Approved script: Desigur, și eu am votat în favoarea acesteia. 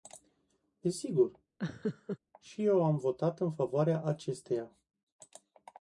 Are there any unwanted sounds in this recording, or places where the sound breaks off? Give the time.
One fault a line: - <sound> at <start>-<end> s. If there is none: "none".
- laugh at 1.6-2.2 s